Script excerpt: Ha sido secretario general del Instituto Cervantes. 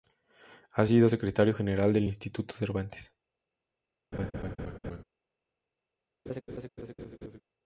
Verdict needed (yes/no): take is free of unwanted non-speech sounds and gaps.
no